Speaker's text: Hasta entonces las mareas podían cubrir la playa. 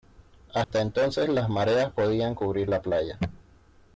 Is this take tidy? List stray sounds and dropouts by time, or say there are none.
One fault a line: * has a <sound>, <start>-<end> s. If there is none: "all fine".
* has a dropout, 0.6-0.7 s